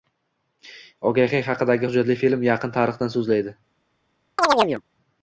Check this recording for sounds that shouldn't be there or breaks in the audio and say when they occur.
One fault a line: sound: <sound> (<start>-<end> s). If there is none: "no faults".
sound: chirp (4.4-4.8 s)